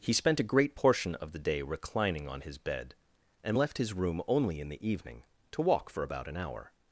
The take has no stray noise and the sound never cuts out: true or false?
true